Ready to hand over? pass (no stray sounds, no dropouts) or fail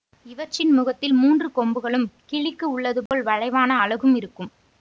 fail